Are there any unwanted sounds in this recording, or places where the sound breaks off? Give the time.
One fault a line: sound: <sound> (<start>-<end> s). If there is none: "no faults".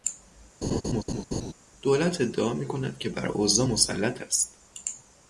sound: laugh (0.6-1.5 s)